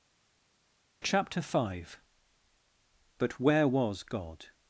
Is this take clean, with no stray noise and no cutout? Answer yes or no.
yes